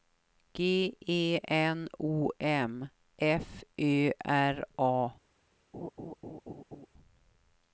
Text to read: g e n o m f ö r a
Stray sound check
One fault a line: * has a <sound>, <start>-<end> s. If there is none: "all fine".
* has a laugh, 5.7-6.9 s